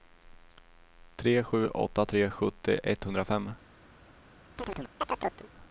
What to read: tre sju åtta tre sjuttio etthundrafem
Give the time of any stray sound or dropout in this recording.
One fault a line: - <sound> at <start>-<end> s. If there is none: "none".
- chirp at 4.6-5.5 s